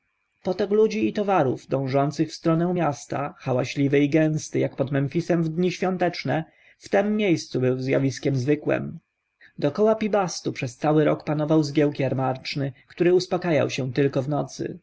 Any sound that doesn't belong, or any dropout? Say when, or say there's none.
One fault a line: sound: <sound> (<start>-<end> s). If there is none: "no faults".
no faults